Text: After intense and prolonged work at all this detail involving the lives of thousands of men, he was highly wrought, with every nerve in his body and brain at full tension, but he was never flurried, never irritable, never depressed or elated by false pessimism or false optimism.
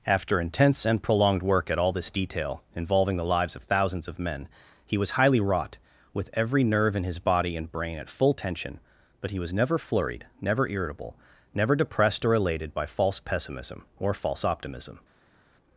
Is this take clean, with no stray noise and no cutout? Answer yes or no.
yes